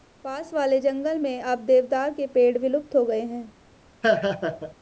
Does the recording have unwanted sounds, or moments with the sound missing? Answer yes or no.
yes